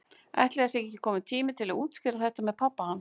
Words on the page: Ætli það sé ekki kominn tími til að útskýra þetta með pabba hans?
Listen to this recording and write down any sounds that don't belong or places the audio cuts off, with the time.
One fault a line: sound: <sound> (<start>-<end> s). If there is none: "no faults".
no faults